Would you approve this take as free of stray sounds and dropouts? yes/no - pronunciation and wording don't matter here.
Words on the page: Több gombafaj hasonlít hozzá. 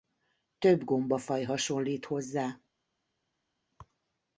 yes